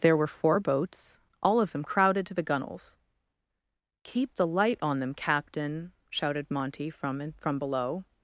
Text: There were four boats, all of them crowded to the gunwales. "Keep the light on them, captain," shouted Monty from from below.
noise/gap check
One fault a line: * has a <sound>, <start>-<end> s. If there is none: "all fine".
all fine